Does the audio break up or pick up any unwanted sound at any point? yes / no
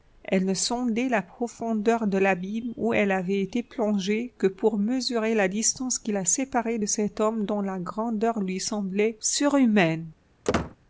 yes